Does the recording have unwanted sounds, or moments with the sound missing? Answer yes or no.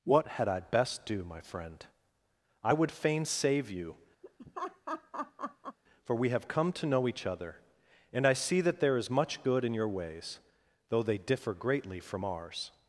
yes